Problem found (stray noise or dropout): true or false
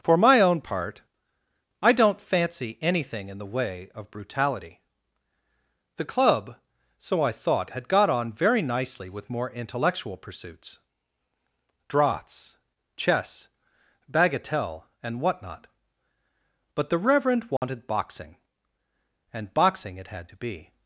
true